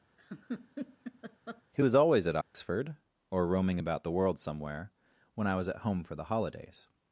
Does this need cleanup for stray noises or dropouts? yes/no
yes